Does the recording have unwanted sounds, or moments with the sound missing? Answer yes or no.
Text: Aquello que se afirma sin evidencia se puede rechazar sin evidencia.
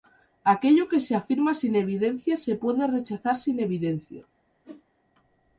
yes